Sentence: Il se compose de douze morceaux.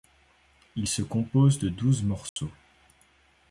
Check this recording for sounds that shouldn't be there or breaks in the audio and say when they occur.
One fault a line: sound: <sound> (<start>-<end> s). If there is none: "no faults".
sound: dropout (2.3-2.4 s)